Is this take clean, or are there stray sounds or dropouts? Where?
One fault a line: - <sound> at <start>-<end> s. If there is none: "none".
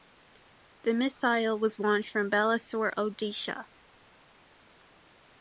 none